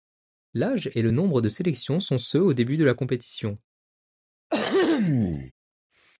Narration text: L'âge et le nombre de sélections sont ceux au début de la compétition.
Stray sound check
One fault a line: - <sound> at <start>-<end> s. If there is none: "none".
- throat clearing at 4.5-5.5 s